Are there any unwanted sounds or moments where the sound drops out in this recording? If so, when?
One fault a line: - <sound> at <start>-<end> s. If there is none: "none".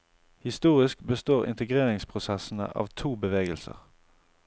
none